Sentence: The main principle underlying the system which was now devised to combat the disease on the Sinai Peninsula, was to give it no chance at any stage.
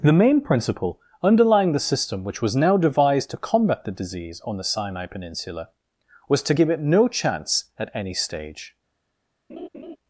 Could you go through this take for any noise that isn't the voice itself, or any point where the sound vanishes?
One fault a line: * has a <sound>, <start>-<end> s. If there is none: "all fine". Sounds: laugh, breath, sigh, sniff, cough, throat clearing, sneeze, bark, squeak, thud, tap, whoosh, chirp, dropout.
* has a laugh, 9.5-10.0 s